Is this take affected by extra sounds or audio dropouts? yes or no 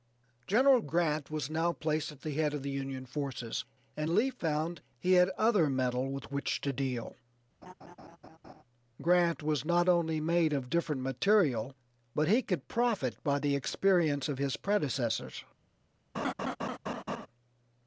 yes